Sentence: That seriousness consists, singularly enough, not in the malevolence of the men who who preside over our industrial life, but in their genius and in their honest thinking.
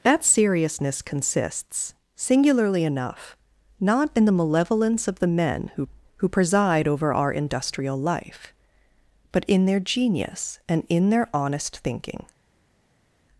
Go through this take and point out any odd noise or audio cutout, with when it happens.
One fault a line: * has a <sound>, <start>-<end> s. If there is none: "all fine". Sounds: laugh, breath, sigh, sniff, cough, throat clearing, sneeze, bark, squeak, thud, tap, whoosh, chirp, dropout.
all fine